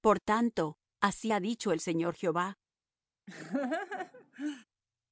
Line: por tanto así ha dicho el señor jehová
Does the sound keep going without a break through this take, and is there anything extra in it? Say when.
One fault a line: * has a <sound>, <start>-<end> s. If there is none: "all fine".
* has a laugh, 3.3-4.6 s